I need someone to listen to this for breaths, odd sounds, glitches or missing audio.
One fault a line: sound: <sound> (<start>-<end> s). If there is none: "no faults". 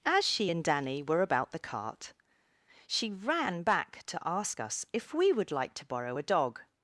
no faults